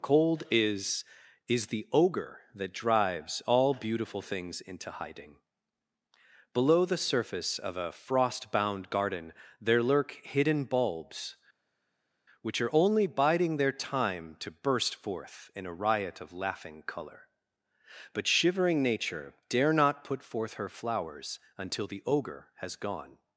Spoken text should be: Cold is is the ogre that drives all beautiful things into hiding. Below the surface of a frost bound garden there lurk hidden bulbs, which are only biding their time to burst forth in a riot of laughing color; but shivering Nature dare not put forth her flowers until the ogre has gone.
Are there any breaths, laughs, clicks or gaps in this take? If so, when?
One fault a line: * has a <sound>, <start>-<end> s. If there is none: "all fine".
all fine